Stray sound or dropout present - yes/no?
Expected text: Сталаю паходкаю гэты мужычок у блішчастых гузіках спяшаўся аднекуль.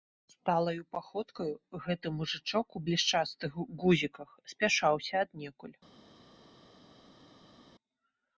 no